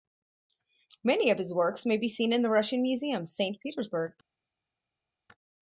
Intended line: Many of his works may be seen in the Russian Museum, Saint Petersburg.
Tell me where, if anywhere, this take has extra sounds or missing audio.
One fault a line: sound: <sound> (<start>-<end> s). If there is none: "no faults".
no faults